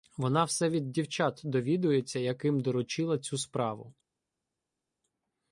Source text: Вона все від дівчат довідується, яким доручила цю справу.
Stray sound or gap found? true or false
false